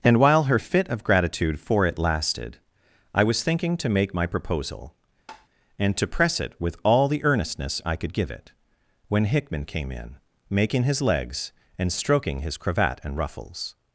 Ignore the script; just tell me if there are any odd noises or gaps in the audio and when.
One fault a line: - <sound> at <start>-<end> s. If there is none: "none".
- tap at 5.3-5.5 s